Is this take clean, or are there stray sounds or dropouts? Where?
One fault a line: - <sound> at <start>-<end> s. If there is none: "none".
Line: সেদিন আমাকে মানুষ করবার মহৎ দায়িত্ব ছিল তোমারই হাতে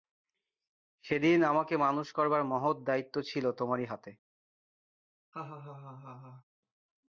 - laugh at 5.3-6.4 s